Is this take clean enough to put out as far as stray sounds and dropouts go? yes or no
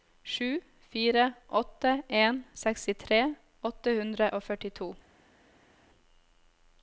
yes